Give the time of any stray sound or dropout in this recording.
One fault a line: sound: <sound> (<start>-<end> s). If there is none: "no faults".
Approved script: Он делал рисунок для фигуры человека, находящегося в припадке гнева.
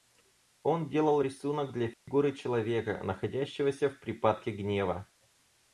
sound: dropout (1.9-2.1 s)